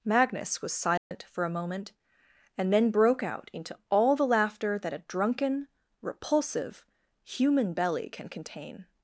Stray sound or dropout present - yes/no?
yes